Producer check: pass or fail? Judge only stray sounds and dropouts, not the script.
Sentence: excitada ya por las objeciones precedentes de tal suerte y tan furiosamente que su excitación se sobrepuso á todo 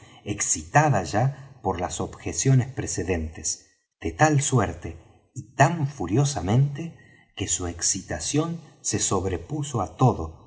pass